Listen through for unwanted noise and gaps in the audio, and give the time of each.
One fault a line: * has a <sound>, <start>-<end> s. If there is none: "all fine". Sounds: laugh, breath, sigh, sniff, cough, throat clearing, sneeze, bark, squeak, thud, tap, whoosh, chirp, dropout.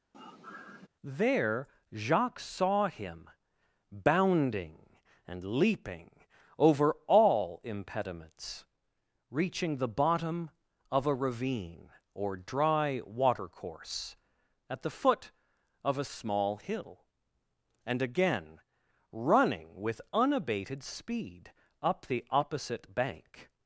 * has a sigh, 0.1-0.9 s